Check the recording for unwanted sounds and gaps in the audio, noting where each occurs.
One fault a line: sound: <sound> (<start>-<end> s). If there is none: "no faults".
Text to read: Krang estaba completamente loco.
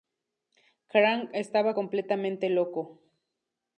no faults